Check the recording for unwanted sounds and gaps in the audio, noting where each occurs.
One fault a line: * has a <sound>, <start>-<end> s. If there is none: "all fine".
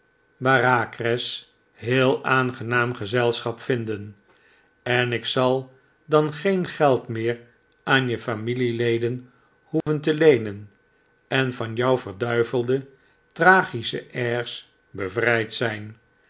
* has a dropout, 9.8-9.9 s